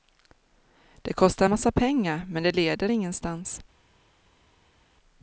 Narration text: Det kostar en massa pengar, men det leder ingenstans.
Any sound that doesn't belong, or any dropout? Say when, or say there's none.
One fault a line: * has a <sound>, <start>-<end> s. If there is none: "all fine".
all fine